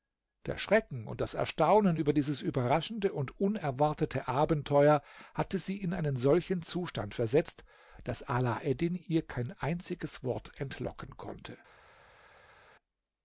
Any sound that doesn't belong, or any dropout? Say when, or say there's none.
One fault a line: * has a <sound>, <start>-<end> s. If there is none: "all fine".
all fine